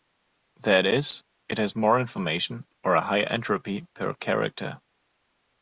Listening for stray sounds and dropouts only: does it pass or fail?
pass